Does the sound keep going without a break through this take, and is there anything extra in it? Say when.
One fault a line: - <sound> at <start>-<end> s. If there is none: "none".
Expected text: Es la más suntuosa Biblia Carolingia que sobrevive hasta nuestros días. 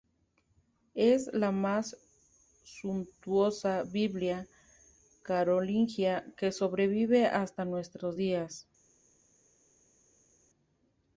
none